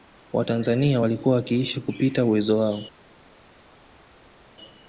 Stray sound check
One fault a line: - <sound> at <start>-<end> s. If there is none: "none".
none